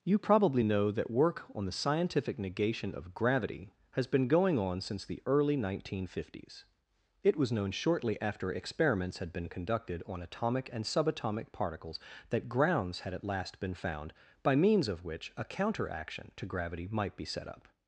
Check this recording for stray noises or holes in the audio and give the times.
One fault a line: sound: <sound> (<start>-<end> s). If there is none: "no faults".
no faults